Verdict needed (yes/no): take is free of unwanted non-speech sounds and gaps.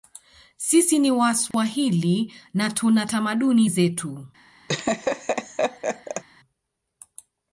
no